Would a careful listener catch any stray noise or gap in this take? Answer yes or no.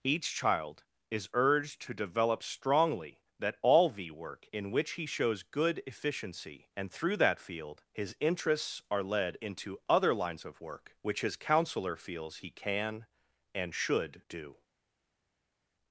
no